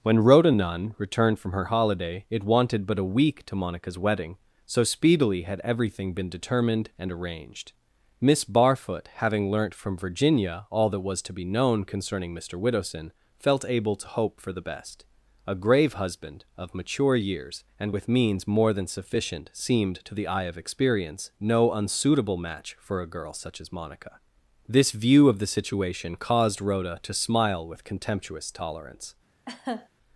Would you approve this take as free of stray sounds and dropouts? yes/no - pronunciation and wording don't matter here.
no